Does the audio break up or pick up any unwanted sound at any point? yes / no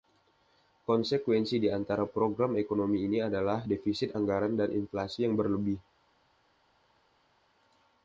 no